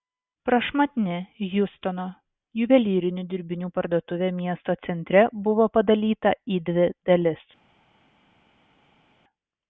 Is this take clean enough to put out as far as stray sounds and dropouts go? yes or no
yes